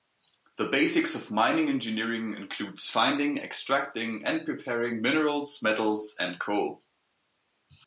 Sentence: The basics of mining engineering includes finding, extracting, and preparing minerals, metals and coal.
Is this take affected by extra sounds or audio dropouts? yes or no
no